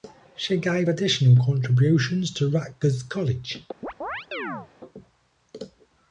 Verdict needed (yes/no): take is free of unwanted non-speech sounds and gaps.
no